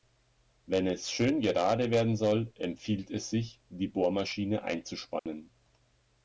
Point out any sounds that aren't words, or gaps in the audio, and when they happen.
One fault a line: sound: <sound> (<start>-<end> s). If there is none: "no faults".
sound: dropout (5.2-5.3 s)